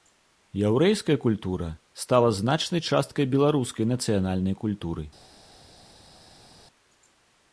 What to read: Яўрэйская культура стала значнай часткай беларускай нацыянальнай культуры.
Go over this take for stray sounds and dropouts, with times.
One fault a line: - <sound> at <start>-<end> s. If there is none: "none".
none